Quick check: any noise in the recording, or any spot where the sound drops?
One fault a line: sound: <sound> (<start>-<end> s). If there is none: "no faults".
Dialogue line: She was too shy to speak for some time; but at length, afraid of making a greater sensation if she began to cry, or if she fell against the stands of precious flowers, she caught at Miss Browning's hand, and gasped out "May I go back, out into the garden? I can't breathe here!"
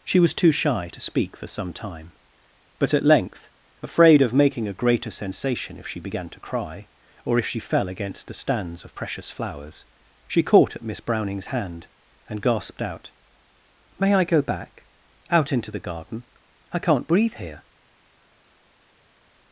no faults